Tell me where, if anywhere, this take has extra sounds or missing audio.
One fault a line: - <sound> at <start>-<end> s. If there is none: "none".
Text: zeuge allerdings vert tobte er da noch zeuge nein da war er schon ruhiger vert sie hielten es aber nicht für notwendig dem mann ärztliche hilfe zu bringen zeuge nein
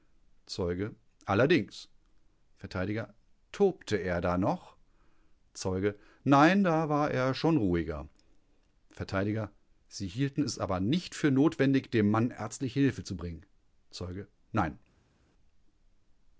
none